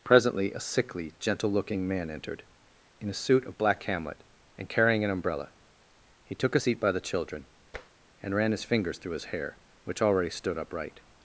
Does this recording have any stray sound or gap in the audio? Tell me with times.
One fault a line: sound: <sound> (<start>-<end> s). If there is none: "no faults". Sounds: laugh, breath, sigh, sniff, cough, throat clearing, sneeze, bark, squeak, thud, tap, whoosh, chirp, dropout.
sound: tap (7.7-7.9 s)